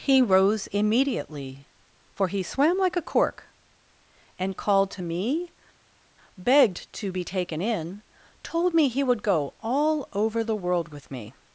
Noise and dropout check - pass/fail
pass